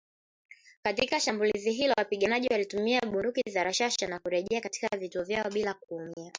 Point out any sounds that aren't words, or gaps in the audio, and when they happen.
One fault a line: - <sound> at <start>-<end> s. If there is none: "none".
- dropout at 6.1-6.2 s